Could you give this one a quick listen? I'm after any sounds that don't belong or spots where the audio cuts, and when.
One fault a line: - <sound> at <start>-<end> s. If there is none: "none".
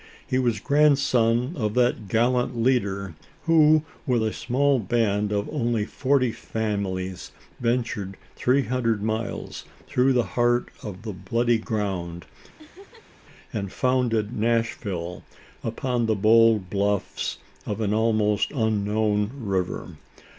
- laugh at 12.6-13.2 s